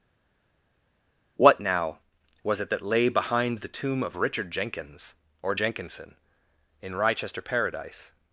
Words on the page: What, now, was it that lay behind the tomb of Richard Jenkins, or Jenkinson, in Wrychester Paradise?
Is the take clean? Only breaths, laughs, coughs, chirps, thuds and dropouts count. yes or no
yes